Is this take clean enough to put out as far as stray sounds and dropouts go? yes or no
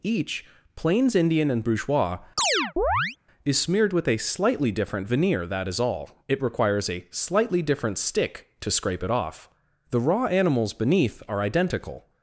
no